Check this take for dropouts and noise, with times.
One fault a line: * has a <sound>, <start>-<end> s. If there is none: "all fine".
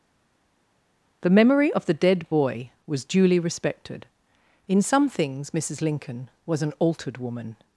all fine